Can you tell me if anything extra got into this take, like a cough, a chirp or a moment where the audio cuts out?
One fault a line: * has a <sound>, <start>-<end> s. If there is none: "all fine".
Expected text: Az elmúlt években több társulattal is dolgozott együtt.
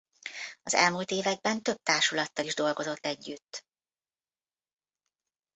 all fine